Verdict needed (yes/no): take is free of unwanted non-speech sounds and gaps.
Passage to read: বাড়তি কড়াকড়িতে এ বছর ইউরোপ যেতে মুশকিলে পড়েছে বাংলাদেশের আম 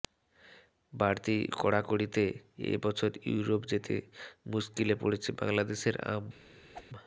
no